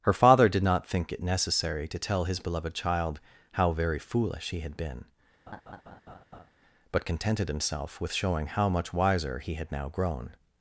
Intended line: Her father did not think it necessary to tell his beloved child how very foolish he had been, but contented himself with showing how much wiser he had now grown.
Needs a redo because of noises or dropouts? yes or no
yes